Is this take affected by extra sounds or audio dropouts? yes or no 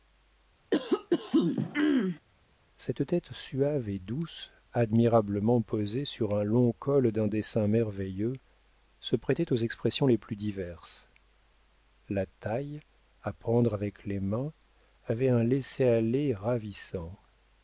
yes